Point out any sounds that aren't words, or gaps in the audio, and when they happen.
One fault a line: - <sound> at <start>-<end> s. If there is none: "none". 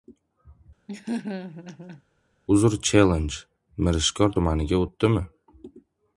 - laugh at 0.9-2.0 s